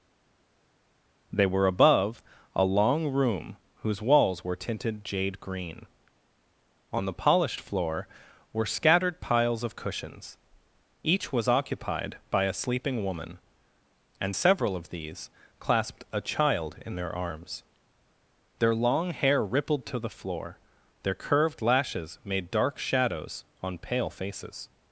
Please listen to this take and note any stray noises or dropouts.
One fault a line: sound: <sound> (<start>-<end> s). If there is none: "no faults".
no faults